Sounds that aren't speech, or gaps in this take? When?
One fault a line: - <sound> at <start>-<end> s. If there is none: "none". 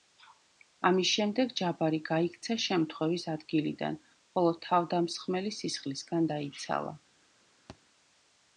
- thud at 7.7-7.8 s